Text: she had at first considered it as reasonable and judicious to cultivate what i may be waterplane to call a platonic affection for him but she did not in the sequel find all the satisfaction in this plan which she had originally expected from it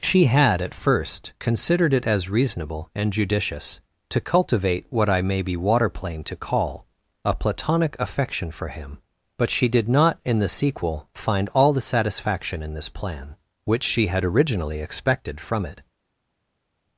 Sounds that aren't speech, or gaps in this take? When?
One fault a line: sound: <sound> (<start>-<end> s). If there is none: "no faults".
no faults